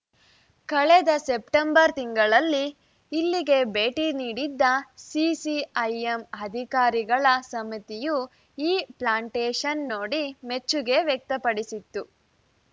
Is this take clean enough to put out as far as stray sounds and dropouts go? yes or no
yes